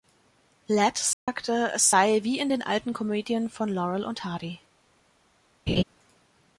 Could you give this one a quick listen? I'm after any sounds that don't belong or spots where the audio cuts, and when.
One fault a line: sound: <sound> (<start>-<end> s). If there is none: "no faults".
sound: dropout (1.1-1.3 s)
sound: laugh (5.7-5.8 s)